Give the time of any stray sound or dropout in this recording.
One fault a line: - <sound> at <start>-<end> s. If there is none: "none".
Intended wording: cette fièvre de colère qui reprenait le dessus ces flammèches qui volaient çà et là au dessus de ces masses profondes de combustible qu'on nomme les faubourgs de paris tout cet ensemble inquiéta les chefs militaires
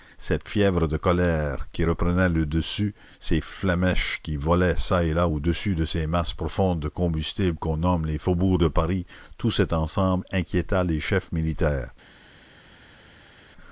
none